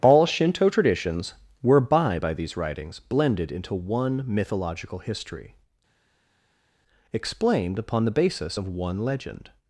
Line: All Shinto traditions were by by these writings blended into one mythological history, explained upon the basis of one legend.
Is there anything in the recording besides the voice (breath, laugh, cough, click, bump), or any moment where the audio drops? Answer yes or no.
no